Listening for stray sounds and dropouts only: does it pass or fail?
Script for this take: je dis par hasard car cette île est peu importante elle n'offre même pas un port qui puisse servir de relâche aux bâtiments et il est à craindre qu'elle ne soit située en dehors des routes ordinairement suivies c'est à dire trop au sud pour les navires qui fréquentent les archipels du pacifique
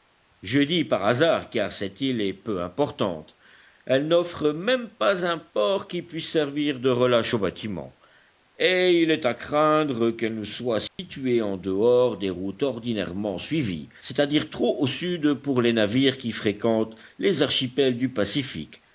fail